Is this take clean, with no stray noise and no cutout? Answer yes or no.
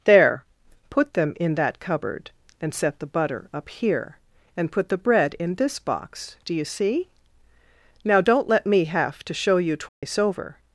no